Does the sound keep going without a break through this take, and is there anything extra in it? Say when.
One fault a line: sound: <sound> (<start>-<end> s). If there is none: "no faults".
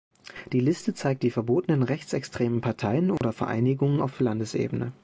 sound: dropout (3.2-3.2 s)